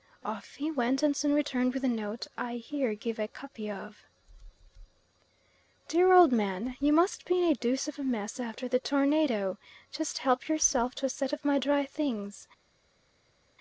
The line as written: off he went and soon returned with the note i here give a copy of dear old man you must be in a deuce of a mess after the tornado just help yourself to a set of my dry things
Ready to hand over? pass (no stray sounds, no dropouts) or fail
pass